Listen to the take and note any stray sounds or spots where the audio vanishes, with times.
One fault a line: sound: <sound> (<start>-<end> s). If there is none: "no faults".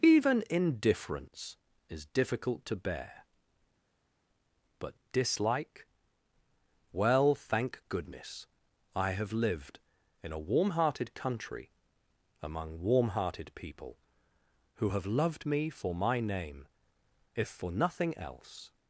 no faults